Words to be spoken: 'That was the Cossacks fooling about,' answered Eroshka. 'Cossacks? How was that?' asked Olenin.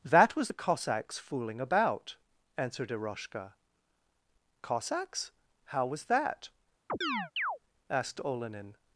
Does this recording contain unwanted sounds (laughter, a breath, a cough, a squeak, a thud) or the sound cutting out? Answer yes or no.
yes